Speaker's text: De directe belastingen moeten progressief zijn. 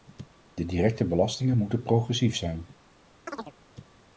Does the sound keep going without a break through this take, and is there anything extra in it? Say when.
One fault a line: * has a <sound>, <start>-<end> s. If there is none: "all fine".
* has a chirp, 3.3-3.5 s